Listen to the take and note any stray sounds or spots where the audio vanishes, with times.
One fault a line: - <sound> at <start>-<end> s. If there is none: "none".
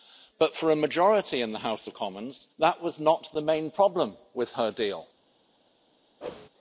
- whoosh at 6.2-6.5 s